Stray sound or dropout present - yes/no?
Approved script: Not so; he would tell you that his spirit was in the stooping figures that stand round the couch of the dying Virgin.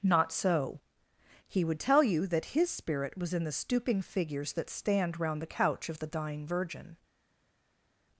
no